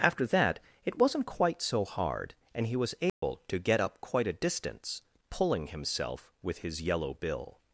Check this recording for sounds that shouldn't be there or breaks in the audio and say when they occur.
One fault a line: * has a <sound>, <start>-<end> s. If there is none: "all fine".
* has a dropout, 3.1-3.2 s